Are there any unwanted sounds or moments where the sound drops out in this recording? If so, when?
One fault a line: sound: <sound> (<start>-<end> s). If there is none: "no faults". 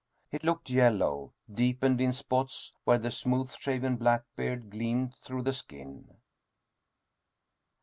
no faults